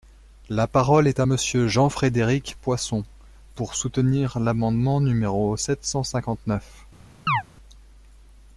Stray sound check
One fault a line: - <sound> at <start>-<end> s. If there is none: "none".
- chirp at 7.3-7.4 s